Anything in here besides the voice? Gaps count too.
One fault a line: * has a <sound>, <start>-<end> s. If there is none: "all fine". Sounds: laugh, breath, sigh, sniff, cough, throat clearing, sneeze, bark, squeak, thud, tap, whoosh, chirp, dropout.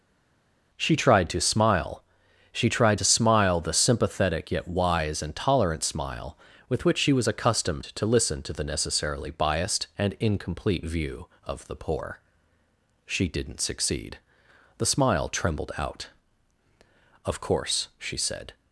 all fine